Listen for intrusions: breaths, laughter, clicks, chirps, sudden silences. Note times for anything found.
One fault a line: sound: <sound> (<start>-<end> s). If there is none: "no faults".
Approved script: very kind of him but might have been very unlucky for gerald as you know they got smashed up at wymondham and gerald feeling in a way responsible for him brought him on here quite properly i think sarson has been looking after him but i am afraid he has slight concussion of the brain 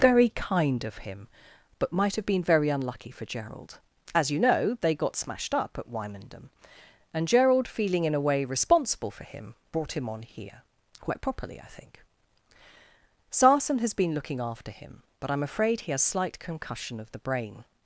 no faults